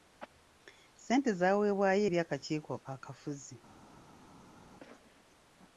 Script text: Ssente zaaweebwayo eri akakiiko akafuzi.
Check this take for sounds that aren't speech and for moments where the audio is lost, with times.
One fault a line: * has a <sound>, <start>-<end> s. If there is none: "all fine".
all fine